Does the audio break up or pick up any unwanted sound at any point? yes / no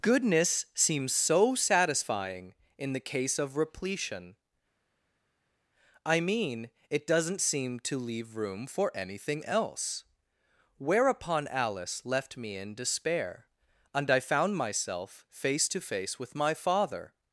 no